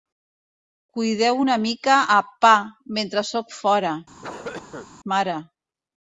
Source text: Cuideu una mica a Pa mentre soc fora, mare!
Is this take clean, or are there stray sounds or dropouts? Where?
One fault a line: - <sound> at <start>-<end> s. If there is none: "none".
- cough at 4.2-4.9 s